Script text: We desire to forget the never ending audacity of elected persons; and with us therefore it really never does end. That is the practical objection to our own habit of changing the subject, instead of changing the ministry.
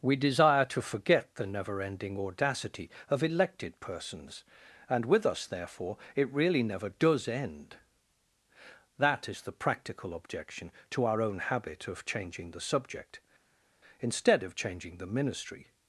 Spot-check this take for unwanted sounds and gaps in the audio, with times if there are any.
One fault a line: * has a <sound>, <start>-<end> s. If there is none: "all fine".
all fine